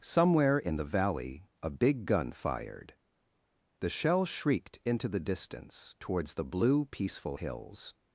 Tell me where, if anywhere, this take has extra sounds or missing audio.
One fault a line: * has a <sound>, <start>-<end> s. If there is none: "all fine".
all fine